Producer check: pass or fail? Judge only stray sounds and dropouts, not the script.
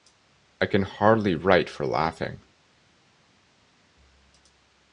pass